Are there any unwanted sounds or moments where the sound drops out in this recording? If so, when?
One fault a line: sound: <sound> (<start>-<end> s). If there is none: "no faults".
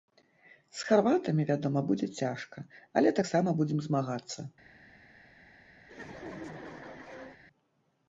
sound: laugh (5.8-7.4 s)